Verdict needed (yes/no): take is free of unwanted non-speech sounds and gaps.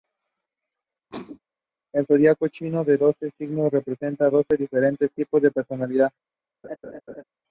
no